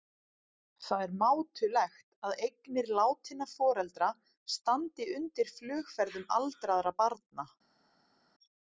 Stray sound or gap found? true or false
false